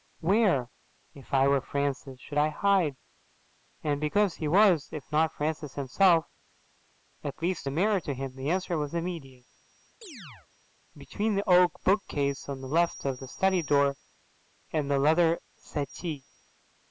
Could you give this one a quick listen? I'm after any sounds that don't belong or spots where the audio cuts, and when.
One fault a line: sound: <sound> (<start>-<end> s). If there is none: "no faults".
sound: chirp (10.0-10.5 s)